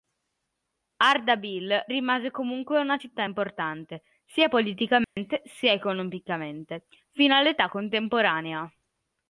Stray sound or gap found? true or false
true